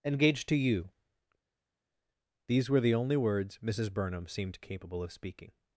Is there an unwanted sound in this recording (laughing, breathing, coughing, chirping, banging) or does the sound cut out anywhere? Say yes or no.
no